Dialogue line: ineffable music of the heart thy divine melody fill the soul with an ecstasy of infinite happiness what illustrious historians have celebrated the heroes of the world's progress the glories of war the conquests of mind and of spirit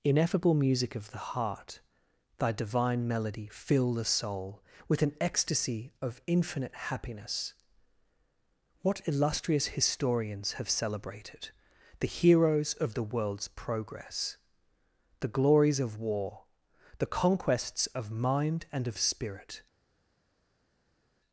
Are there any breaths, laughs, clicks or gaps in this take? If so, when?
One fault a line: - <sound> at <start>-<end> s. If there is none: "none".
none